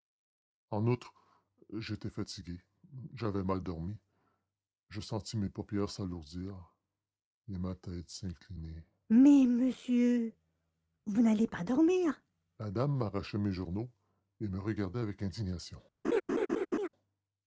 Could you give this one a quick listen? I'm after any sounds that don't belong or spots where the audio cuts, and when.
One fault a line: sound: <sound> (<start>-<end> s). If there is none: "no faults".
sound: laugh (16.0-16.9 s)